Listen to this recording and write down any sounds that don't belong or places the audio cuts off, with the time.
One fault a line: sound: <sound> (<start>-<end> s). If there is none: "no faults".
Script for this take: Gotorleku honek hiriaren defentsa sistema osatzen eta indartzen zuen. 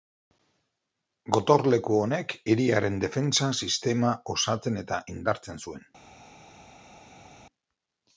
no faults